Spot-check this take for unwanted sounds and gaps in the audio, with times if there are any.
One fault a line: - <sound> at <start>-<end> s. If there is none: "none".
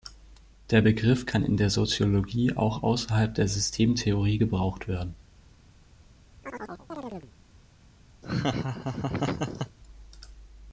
- chirp at 6.4-7.3 s
- laugh at 8.2-9.8 s